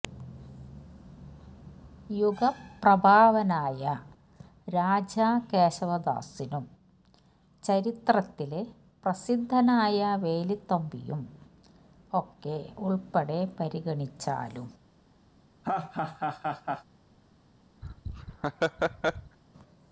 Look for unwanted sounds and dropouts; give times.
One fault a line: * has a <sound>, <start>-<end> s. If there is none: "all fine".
* has a laugh, 15.6-16.8 s
* has a laugh, 17.8-19.4 s